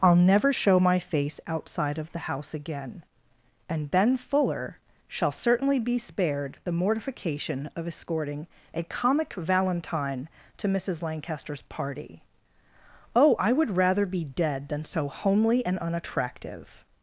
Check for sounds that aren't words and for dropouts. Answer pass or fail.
pass